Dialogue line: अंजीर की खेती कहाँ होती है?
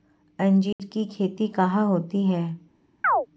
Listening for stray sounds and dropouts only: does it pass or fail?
fail